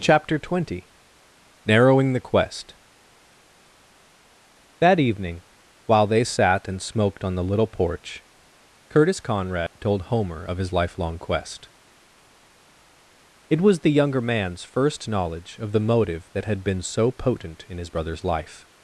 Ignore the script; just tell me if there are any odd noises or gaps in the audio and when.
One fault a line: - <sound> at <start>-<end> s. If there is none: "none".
- dropout at 9.7-9.8 s